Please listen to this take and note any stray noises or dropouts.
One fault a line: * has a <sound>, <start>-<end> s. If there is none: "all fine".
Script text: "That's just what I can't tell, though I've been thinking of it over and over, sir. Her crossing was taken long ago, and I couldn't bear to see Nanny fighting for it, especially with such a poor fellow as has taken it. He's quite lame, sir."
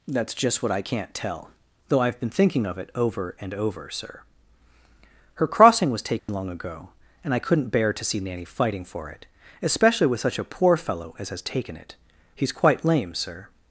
* has a dropout, 6.2-6.3 s